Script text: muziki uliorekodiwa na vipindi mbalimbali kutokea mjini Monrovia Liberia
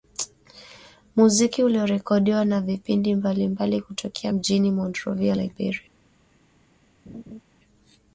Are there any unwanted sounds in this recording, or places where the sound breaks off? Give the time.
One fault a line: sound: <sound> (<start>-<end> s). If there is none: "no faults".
sound: laugh (7.1-7.4 s)